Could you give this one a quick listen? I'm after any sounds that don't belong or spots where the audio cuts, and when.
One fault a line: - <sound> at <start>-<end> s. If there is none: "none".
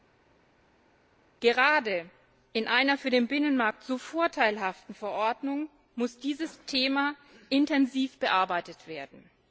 none